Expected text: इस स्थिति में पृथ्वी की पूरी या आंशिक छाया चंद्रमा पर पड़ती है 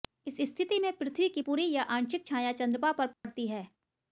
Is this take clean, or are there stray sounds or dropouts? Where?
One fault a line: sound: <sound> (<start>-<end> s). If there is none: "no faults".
sound: dropout (3.1-3.2 s)